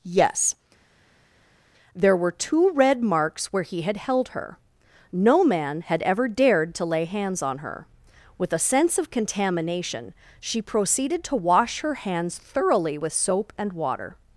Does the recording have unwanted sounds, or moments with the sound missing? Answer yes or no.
no